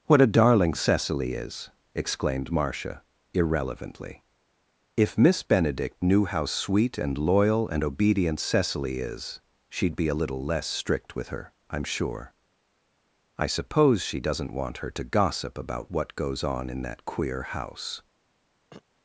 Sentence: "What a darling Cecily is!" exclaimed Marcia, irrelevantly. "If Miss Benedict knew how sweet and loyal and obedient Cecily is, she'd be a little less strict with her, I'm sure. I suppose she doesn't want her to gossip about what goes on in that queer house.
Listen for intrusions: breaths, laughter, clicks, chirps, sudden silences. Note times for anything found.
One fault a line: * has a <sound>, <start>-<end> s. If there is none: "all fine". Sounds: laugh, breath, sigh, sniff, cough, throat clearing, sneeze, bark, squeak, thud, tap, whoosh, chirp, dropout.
* has a throat clearing, 18.7-18.8 s